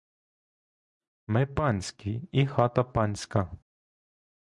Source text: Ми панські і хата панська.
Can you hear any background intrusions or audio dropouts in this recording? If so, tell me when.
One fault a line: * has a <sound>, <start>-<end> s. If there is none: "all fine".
all fine